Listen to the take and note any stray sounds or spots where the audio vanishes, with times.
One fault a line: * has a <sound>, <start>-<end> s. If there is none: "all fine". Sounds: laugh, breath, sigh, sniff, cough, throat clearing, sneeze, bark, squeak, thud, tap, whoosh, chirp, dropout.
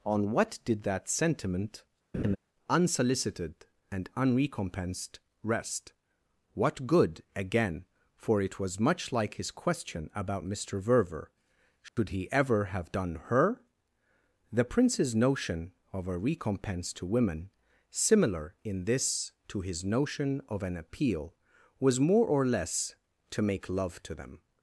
* has a laugh, 2.1-2.4 s
* has a dropout, 11.9-12.0 s